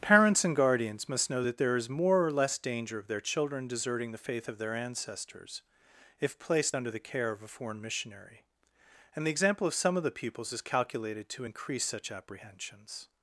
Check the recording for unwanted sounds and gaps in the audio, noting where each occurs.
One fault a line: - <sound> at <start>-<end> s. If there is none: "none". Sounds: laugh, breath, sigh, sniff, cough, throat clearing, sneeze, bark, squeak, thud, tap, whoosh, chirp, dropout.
none